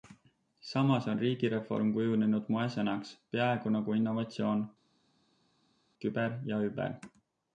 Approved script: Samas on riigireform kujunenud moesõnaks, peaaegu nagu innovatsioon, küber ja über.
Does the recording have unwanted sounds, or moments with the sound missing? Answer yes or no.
no